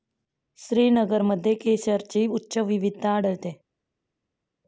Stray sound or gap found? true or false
false